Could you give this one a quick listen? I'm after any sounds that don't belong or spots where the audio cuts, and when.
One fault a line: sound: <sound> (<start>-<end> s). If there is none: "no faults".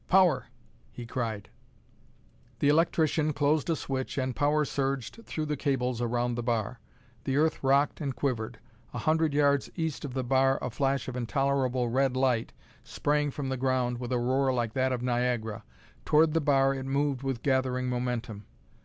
no faults